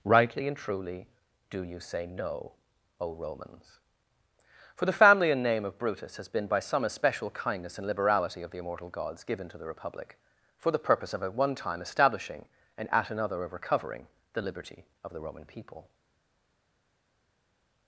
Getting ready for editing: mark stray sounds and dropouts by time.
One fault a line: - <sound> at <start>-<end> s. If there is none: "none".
none